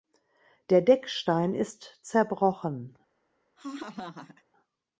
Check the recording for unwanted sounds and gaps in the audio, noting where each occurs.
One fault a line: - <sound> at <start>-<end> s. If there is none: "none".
- laugh at 3.6-4.4 s